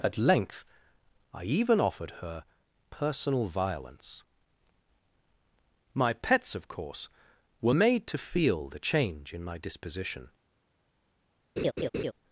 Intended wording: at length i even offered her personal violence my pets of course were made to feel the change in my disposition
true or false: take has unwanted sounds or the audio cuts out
true